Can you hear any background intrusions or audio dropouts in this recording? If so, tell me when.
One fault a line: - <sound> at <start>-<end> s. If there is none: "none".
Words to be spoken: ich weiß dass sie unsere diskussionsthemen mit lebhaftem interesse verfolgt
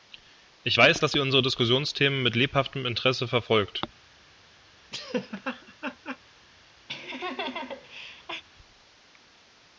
- laugh at 4.9-6.2 s
- laugh at 6.9-8.4 s